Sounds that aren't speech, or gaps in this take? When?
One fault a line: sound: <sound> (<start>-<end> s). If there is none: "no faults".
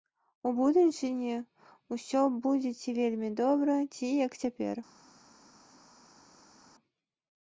no faults